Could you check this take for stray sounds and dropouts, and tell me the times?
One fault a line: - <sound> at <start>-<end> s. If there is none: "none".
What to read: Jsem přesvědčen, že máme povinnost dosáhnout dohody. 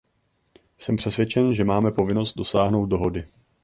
none